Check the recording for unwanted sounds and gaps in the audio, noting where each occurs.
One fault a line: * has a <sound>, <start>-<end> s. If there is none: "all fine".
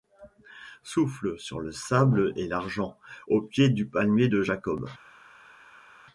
all fine